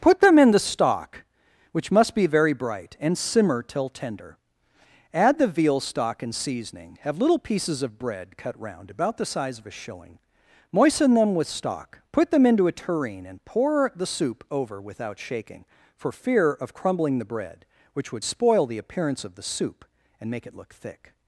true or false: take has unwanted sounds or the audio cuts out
false